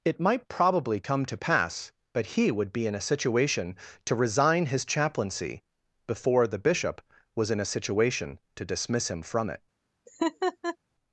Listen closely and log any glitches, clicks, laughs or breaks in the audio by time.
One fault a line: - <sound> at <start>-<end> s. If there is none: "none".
- laugh at 10.1-10.8 s